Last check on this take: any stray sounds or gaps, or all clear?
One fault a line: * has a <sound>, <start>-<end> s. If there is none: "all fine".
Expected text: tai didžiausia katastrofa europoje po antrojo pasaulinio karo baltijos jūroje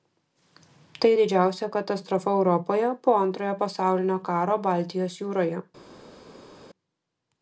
all fine